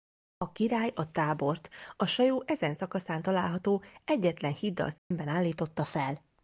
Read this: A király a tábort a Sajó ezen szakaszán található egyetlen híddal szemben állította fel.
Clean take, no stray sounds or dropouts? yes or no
no